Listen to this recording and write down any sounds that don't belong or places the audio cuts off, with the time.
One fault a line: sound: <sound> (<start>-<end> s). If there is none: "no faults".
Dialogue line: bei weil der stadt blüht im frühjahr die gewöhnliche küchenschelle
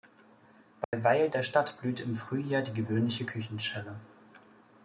sound: dropout (0.8-0.9 s)